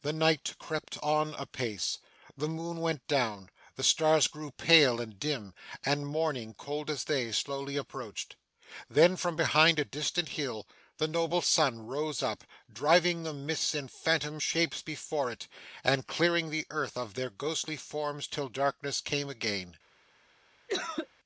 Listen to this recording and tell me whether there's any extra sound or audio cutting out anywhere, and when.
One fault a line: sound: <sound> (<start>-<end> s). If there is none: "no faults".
sound: cough (20.7-21.1 s)